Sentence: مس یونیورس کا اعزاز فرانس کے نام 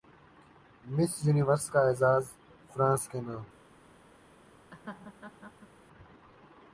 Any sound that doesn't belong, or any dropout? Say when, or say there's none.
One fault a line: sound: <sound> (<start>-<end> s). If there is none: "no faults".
sound: laugh (4.7-5.7 s)